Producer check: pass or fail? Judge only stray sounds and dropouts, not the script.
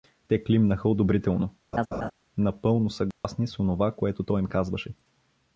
fail